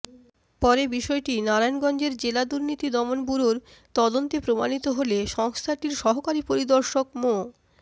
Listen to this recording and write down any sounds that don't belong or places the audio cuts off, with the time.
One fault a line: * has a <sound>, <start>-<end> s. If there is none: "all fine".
all fine